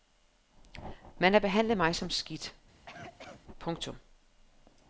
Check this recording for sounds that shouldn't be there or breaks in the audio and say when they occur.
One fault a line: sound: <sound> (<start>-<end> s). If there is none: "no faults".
sound: cough (2.7-3.4 s)